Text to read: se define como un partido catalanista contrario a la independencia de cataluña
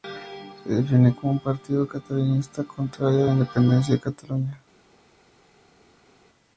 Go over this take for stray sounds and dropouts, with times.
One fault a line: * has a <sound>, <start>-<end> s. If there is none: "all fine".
all fine